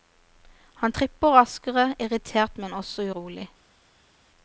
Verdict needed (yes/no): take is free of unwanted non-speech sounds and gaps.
yes